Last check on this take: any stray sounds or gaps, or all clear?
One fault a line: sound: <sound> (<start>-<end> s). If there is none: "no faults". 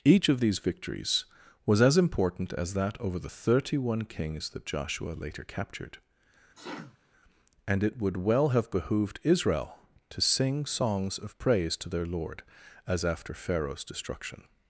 sound: sneeze (6.5-7.0 s)